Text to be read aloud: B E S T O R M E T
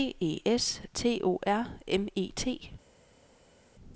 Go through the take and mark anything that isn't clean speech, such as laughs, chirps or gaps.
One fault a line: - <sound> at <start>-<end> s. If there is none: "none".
none